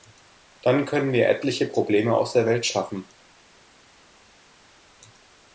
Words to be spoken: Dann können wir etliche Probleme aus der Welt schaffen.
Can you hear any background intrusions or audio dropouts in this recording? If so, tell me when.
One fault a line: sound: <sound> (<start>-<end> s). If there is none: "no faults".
no faults